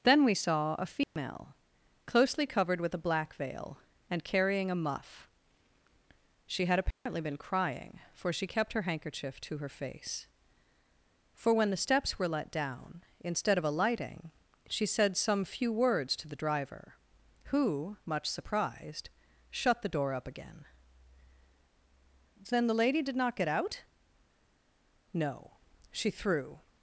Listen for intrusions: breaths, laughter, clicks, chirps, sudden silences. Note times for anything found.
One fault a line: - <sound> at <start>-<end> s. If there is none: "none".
- dropout at 1.0-1.2 s
- dropout at 6.9-7.1 s